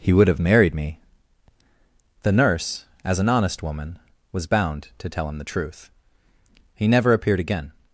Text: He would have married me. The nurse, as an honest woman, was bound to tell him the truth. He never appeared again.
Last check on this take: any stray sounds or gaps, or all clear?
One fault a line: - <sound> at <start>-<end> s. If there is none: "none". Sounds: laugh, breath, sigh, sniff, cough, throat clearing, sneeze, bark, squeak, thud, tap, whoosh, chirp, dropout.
none